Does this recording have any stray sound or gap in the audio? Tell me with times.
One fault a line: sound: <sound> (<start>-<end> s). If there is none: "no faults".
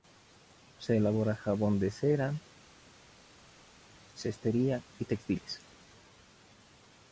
no faults